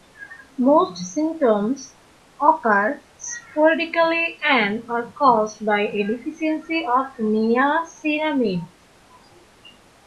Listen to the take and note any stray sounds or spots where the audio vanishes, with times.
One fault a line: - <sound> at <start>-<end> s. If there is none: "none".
none